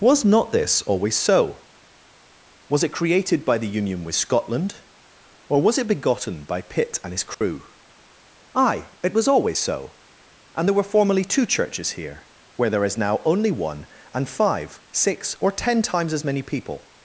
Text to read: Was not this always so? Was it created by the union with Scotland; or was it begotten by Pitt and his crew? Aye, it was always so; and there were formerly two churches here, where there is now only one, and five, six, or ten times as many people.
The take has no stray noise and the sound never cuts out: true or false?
false